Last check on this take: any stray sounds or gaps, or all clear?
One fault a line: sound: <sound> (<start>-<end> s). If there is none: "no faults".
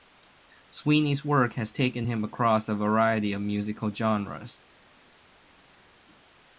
no faults